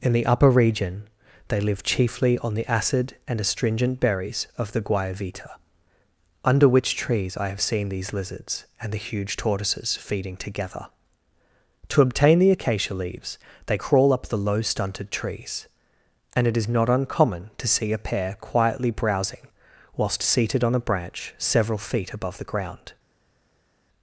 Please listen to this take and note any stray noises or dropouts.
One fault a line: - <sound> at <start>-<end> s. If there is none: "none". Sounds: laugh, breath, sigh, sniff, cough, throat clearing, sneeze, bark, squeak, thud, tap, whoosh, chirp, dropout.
none